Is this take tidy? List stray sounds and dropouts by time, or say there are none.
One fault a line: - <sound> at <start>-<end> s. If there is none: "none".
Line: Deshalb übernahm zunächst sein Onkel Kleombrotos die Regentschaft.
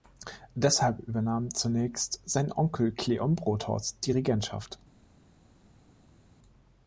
none